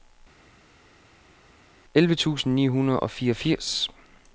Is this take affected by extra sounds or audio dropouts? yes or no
no